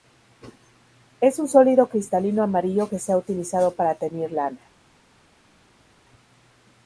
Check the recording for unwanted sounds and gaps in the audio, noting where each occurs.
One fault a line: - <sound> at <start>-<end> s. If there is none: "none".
none